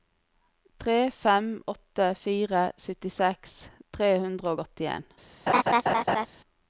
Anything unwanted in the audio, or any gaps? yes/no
yes